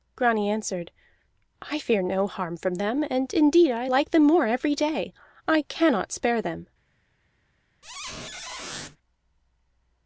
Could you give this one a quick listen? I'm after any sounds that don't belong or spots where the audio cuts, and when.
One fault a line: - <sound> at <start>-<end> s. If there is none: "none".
- squeak at 7.8-9.0 s